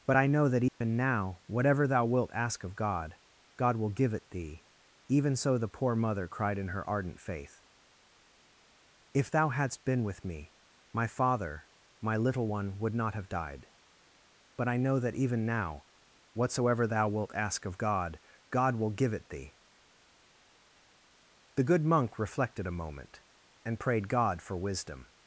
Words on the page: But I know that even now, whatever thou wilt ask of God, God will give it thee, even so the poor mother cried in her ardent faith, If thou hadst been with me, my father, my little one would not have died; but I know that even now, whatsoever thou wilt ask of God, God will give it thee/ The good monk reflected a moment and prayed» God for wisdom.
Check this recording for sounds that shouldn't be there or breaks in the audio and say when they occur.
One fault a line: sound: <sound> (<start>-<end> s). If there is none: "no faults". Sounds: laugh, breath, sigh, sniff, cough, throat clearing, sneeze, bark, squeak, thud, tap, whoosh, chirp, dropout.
sound: dropout (0.7-0.8 s)